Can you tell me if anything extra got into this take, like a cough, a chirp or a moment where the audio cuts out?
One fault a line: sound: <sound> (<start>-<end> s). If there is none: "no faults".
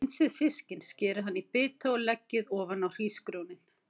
no faults